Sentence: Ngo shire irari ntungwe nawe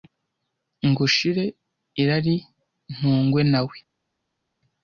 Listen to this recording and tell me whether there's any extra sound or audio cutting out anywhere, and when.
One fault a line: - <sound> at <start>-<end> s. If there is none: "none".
none